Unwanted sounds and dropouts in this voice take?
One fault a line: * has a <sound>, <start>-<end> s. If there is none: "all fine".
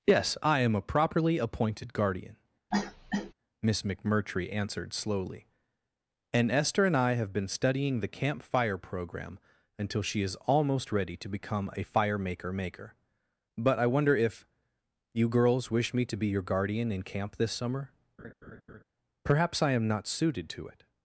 * has a cough, 2.7-3.3 s
* has a laugh, 18.2-18.8 s